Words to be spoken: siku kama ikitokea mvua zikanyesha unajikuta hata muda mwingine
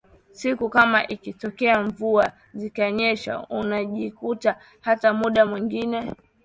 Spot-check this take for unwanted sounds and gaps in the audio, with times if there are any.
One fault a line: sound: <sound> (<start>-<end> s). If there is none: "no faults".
no faults